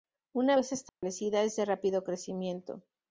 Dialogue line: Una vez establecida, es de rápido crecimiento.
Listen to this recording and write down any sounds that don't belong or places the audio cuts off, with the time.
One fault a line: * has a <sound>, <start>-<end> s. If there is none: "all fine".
* has a dropout, 0.9-1.0 s